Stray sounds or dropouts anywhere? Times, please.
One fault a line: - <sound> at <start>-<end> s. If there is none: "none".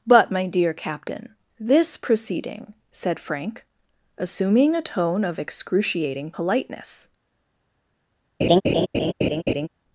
- laugh at 8.4-9.7 s